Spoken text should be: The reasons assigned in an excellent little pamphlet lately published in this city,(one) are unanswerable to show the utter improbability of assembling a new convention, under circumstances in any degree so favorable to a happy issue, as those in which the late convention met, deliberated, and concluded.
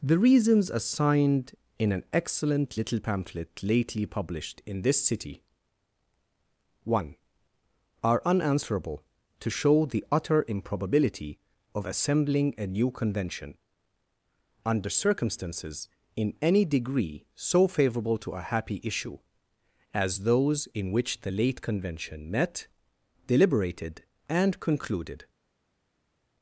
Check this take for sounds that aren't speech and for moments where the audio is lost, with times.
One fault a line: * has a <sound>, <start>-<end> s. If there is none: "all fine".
all fine